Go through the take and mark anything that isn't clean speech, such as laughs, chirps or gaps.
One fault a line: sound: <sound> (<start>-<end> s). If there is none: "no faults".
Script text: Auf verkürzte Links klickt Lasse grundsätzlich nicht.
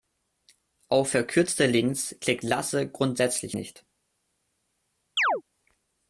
sound: chirp (5.2-5.4 s)